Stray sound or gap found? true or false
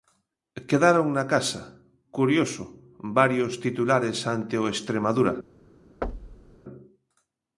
true